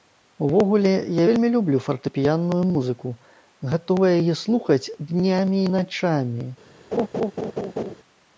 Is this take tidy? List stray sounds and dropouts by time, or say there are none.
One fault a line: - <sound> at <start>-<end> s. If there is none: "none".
- laugh at 6.9-7.9 s